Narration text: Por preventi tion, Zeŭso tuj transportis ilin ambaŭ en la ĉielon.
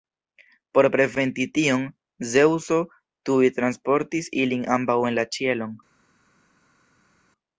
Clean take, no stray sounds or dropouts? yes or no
yes